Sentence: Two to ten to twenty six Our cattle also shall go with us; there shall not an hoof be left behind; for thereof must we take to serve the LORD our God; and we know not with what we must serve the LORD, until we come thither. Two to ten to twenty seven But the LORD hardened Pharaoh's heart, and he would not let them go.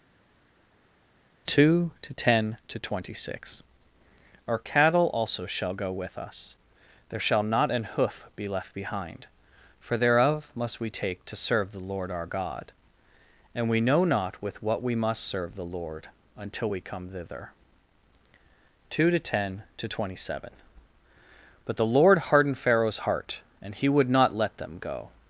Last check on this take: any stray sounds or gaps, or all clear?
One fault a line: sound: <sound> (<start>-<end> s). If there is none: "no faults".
no faults